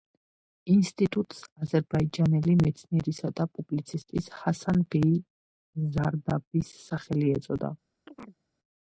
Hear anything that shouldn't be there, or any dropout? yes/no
yes